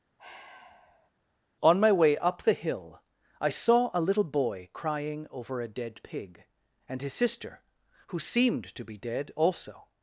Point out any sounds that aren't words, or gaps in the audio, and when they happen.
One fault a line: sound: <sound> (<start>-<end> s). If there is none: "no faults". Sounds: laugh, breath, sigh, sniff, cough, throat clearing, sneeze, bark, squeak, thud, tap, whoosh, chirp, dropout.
sound: sigh (0.2-1.1 s)